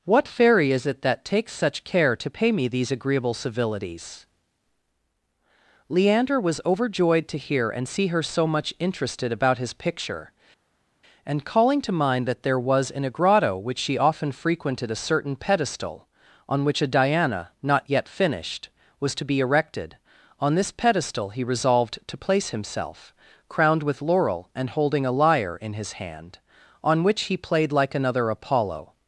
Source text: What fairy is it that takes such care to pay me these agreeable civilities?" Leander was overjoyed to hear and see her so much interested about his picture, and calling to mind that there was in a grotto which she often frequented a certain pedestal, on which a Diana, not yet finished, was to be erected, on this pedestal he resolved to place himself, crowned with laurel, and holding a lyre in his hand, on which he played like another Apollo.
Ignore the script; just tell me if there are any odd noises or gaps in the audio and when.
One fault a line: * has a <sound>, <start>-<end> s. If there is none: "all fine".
all fine